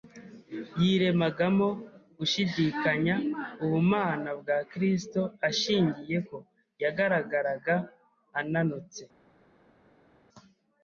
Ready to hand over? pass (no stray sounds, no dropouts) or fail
pass